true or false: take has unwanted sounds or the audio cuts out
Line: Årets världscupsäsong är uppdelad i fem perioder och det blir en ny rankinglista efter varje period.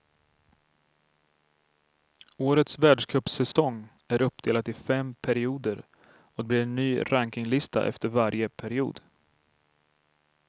true